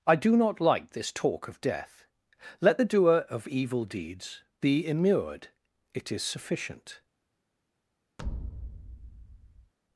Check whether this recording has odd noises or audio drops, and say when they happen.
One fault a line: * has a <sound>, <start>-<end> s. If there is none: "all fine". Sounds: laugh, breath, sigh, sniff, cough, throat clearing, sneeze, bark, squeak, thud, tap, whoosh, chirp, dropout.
* has a thud, 8.2-9.7 s